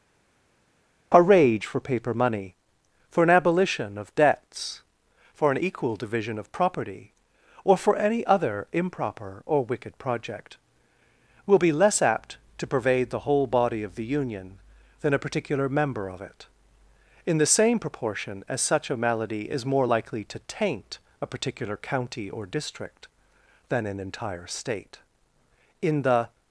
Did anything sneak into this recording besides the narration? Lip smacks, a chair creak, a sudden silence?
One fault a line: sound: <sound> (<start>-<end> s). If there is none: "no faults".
no faults